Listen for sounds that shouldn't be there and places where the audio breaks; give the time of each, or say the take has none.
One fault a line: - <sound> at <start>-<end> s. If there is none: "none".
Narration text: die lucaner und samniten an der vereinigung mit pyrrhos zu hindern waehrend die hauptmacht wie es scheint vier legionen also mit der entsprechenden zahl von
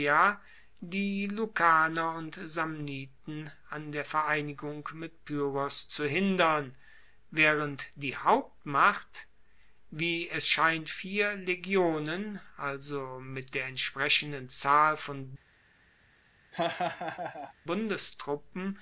- laugh at 16.5-17.5 s